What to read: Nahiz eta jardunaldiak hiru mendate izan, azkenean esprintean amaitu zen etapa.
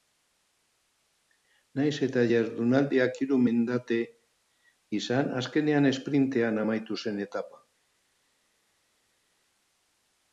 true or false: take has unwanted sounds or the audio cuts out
false